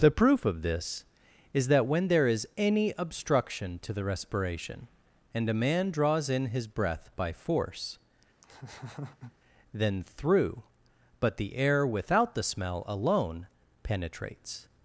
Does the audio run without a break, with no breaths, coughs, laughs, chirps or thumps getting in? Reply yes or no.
no